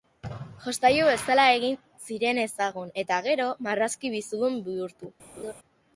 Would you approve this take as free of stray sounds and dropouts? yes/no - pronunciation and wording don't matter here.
no